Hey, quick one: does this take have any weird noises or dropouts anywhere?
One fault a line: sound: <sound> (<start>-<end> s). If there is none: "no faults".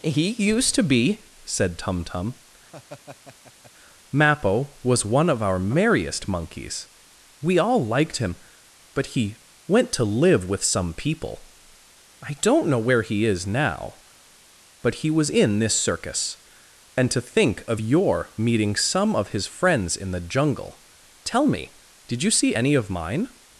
sound: laugh (2.7-3.7 s)